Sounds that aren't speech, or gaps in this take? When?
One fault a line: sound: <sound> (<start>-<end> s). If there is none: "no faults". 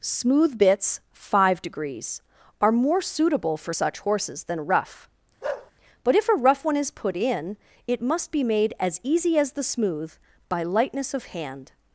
sound: bark (5.4-5.7 s)